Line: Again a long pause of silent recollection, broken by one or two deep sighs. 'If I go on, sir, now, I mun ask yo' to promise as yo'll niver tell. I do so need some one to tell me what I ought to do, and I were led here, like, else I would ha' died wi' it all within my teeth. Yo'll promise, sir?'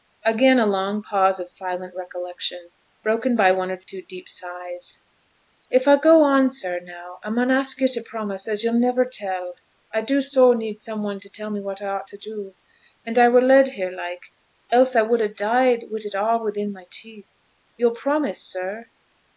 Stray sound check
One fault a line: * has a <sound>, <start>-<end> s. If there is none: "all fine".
* has a dropout, 3.8-3.9 s